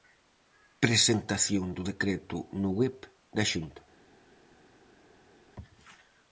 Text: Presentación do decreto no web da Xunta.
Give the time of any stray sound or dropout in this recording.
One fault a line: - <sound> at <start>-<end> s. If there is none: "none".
none